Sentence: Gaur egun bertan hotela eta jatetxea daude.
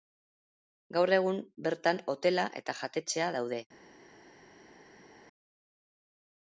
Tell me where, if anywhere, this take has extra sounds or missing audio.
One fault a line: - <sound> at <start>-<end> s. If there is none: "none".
none